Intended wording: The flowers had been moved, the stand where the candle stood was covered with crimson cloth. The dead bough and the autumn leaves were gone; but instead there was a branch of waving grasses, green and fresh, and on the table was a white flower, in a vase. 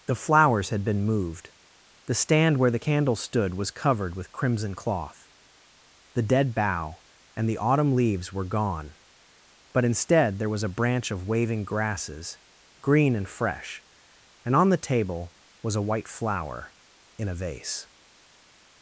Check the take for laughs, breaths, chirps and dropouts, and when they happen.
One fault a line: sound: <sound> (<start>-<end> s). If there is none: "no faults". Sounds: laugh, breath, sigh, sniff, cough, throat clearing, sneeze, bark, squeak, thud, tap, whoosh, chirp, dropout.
no faults